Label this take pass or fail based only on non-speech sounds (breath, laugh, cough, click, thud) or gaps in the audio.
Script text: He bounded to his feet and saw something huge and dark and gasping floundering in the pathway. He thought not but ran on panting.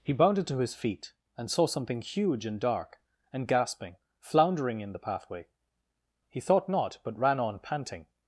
pass